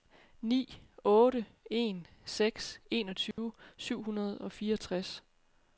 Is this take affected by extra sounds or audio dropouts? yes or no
yes